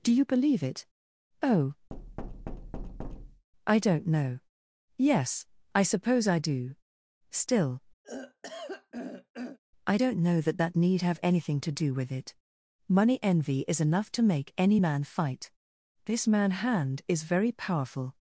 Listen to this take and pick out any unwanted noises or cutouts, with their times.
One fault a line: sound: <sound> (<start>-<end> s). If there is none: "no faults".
sound: thud (1.9-3.5 s)
sound: throat clearing (8.0-9.6 s)